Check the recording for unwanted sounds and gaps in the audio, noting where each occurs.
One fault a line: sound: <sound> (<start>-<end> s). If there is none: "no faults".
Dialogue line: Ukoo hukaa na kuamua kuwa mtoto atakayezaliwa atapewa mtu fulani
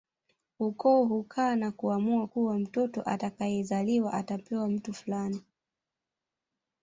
no faults